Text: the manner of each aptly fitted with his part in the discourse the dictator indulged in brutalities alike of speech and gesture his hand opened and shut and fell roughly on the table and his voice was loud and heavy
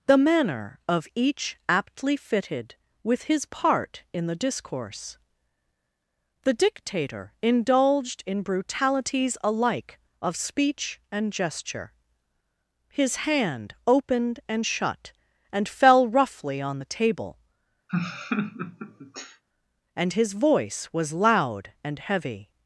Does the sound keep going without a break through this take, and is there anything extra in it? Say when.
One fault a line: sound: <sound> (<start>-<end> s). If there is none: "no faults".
sound: laugh (17.9-19.4 s)